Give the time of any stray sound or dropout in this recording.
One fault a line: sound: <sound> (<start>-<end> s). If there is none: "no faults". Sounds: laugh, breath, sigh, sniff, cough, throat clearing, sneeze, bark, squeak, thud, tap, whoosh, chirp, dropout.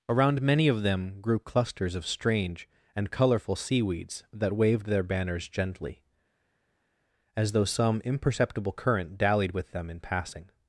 no faults